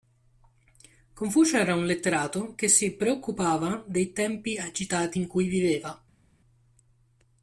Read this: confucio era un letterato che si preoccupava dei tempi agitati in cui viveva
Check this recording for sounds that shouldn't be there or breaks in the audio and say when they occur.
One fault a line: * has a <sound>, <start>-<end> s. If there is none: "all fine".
all fine